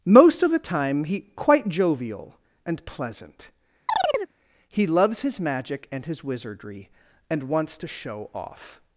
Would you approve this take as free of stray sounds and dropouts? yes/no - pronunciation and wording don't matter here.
no